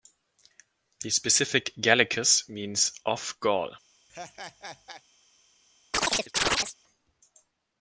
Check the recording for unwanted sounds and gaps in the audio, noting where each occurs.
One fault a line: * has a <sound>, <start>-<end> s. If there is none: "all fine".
* has a laugh, 4.1-5.0 s
* has a chirp, 5.9-6.8 s